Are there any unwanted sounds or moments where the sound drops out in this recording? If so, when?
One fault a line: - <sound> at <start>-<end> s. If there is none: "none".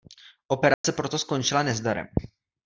- dropout at 0.7-0.8 s